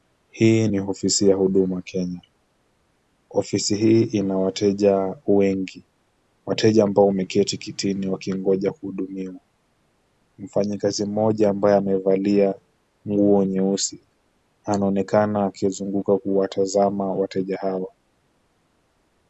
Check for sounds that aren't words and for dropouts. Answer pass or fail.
pass